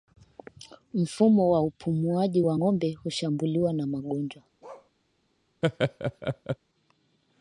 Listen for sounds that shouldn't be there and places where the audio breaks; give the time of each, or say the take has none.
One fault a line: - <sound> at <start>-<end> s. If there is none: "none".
- bark at 4.6-4.9 s
- laugh at 5.6-6.6 s